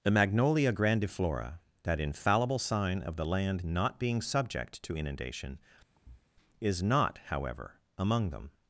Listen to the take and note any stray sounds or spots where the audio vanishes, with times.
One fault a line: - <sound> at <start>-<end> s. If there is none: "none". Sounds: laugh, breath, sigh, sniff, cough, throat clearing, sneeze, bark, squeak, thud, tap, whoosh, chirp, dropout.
- thud at 5.9-6.3 s